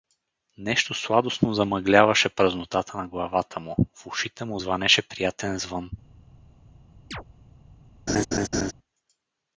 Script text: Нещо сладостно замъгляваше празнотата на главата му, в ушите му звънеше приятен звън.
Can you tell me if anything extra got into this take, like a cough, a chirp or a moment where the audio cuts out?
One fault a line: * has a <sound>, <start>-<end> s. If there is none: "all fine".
* has a chirp, 7.1-7.2 s
* has a laugh, 8.1-8.7 s